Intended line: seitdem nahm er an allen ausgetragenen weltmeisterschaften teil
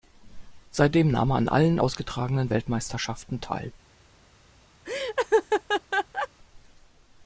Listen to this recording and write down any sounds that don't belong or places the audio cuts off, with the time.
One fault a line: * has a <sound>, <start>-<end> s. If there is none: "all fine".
* has a laugh, 4.8-6.3 s